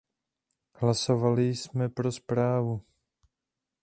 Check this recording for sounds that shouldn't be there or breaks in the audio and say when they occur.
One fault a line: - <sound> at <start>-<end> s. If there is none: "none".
none